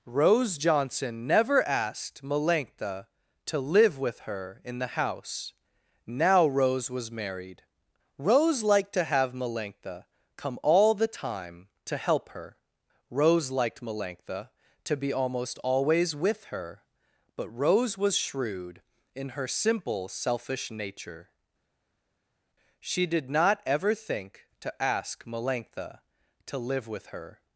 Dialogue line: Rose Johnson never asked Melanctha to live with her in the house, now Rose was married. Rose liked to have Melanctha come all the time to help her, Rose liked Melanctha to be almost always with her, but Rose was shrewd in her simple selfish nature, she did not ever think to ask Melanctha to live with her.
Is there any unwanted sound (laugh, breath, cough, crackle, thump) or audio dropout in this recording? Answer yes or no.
no